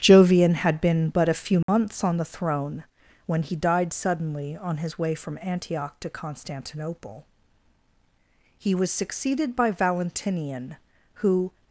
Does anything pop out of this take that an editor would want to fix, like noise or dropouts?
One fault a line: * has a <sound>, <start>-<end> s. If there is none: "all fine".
* has a dropout, 1.6-1.7 s